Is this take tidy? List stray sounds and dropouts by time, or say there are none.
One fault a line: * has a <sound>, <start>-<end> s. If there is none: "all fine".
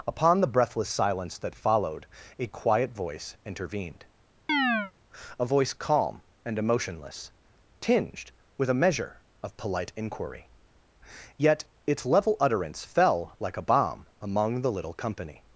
* has a chirp, 4.5-4.9 s